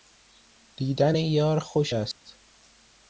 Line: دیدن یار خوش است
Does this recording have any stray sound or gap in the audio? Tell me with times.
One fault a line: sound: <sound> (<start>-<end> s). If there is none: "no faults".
sound: dropout (2.1-2.3 s)